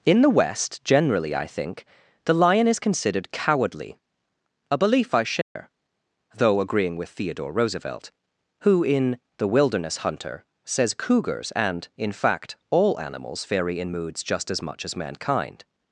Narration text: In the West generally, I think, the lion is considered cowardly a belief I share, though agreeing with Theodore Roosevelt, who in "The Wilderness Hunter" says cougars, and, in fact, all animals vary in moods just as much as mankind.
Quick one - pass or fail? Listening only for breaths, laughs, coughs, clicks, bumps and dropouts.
fail